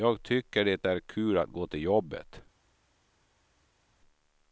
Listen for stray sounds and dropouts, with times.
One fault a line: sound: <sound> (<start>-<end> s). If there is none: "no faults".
no faults